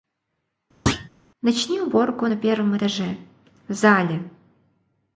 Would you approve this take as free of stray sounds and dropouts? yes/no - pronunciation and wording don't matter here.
no